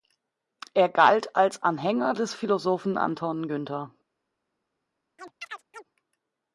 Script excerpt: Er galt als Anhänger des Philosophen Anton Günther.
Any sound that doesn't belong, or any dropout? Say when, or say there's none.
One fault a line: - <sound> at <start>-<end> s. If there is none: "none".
- chirp at 5.2-5.8 s